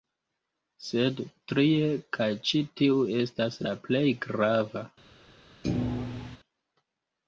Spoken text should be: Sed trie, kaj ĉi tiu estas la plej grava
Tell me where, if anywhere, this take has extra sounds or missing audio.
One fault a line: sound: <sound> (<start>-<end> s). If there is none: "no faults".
sound: thud (5.6-6.4 s)